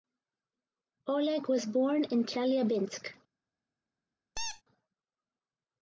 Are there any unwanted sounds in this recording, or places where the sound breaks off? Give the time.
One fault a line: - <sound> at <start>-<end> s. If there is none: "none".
- squeak at 4.4-4.6 s